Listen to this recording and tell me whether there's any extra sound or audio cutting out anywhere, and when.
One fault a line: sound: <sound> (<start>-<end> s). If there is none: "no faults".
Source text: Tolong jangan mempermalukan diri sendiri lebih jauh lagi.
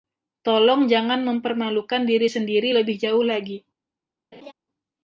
sound: laugh (4.3-4.5 s)